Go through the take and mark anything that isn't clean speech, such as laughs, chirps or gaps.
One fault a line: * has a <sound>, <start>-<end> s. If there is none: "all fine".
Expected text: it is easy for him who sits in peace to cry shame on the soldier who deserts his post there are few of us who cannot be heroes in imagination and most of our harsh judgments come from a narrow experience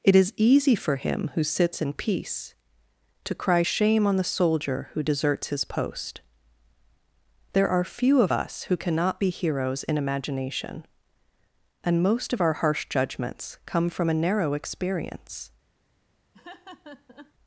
* has a laugh, 16.3-17.3 s